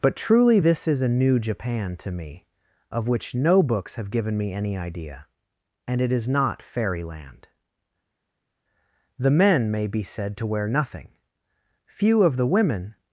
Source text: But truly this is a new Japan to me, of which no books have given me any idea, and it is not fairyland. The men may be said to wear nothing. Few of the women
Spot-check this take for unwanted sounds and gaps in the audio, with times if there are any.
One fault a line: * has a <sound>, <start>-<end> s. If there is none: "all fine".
all fine